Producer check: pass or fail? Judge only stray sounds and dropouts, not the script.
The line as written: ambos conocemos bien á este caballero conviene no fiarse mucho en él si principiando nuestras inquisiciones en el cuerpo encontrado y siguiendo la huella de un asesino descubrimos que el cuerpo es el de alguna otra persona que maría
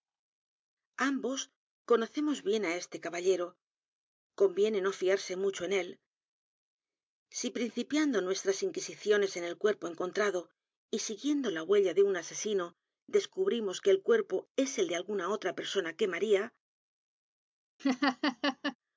fail